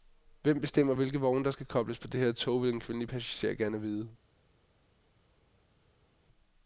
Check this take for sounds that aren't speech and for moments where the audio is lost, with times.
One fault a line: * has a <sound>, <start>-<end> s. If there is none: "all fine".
all fine